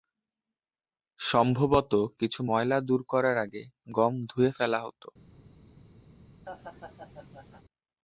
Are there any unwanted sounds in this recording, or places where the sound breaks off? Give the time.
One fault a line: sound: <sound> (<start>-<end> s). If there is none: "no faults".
sound: laugh (6.5-7.6 s)